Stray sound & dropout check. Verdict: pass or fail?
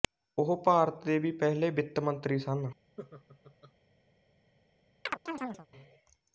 fail